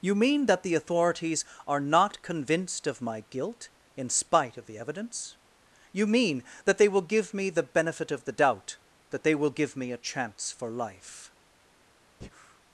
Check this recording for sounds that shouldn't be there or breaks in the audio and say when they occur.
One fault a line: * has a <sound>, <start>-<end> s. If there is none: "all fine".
* has a breath, 12.2-12.6 s